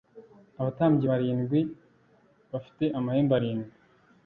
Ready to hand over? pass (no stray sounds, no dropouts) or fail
pass